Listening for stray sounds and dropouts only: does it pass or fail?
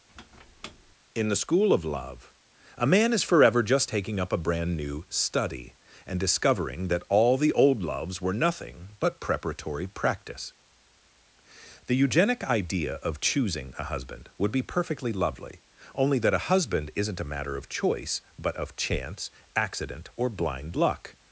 fail